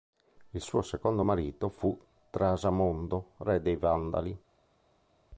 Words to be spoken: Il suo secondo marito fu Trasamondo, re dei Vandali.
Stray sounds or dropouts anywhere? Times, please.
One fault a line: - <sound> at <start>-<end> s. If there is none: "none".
none